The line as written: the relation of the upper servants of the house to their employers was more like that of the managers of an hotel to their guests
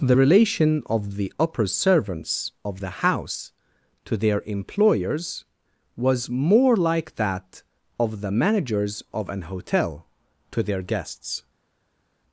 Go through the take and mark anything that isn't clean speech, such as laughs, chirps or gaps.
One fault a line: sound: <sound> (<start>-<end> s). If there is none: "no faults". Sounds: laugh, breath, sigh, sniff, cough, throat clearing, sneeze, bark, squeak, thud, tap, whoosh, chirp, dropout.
no faults